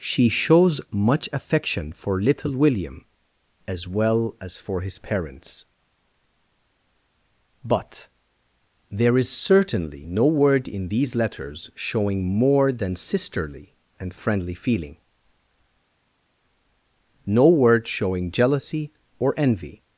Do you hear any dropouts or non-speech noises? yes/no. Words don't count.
no